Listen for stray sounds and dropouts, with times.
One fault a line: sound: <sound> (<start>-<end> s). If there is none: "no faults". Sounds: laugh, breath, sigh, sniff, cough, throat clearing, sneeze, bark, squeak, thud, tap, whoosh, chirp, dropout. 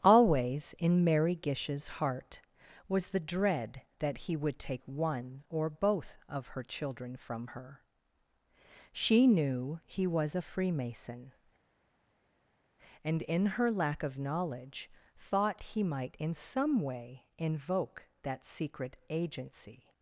no faults